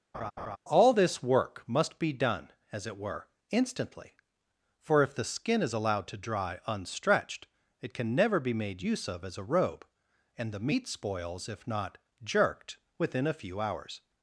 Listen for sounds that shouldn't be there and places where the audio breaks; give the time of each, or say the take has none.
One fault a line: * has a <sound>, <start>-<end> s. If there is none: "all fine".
* has a laugh, 0.1-0.6 s